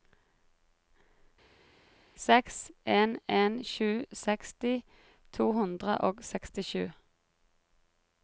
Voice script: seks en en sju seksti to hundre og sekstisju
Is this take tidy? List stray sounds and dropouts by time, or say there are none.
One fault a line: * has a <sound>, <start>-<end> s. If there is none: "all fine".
all fine